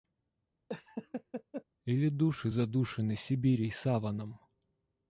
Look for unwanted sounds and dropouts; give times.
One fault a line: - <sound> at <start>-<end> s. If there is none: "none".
- laugh at 0.7-1.6 s